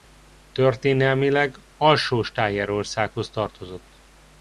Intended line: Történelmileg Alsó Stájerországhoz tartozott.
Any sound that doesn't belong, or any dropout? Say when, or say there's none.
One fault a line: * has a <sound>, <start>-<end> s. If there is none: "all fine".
all fine